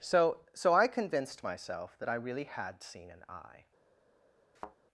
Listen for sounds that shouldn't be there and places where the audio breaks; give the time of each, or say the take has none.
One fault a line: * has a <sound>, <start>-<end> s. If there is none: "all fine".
* has a thud, 4.6-4.8 s